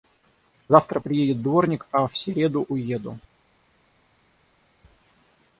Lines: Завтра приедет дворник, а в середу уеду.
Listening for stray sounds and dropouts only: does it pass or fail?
pass